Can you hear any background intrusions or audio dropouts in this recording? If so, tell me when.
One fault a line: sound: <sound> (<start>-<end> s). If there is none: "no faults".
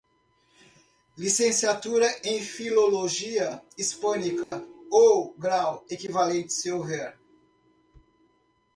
sound: dropout (4.4-4.5 s)